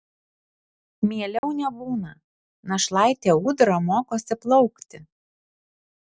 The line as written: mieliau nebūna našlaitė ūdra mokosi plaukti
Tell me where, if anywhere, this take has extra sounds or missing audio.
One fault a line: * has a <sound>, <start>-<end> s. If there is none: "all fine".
* has a dropout, 1.4-1.4 s